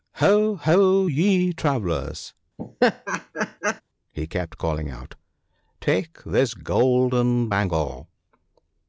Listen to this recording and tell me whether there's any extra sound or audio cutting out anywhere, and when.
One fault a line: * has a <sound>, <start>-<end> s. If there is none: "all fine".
* has a laugh, 2.6-3.8 s